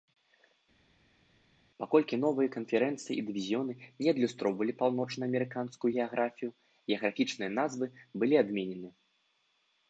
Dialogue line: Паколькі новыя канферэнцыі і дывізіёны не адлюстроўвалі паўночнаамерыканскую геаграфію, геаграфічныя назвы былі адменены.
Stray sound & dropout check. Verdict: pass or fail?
pass